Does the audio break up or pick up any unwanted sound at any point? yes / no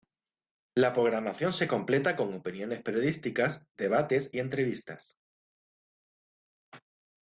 no